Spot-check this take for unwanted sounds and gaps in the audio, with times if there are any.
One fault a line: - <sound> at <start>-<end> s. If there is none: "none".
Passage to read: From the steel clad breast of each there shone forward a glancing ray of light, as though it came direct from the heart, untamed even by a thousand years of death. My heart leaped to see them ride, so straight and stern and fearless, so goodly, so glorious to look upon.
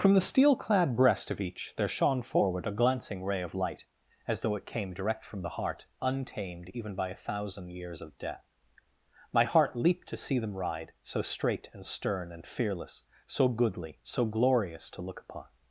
none